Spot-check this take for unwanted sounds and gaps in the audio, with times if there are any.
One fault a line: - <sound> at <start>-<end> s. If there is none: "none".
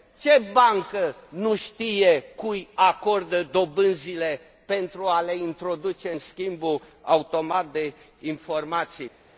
none